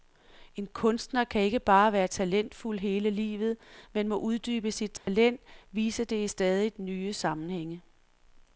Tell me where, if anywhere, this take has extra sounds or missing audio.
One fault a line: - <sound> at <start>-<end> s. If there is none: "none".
- dropout at 5.0-5.1 s